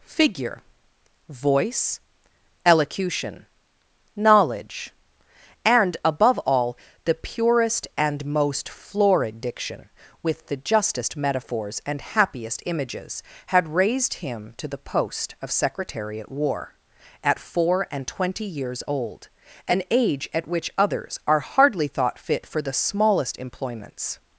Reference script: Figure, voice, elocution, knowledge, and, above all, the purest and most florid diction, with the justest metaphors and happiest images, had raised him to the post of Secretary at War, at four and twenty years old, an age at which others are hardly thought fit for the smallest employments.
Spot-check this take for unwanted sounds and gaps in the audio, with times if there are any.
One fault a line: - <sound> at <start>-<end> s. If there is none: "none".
none